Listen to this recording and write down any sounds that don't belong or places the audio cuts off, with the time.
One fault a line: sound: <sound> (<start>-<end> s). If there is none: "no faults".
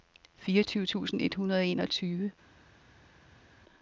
no faults